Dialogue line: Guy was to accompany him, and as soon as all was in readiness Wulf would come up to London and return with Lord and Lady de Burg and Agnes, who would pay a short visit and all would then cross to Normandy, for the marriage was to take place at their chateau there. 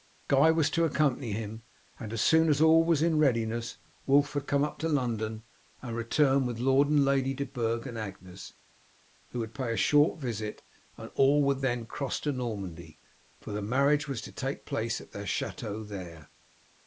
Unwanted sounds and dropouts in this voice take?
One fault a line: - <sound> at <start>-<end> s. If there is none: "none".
none